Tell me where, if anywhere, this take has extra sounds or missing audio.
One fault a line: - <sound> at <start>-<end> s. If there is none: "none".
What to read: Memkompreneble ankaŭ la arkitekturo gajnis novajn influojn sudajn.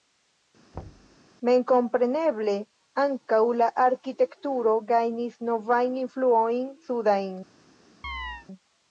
- thud at 0.7-1.2 s
- chirp at 8.0-8.5 s